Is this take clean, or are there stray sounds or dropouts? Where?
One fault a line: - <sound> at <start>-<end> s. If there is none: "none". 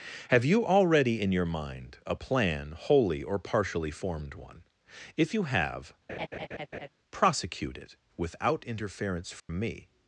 - laugh at 6.1-6.9 s
- dropout at 9.4-9.5 s